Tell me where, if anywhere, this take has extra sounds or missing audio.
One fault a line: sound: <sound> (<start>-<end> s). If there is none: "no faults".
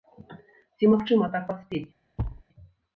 sound: thud (2.2-2.4 s)